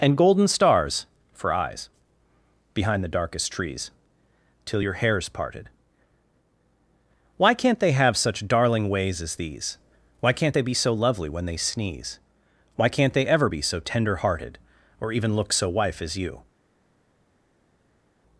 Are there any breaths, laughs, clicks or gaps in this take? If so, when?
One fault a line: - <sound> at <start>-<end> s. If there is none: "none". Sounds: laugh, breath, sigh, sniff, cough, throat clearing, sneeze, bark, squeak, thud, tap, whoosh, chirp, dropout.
none